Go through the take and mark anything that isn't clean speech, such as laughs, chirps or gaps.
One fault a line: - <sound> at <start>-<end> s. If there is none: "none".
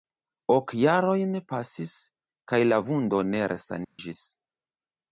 - dropout at 3.8-4.0 s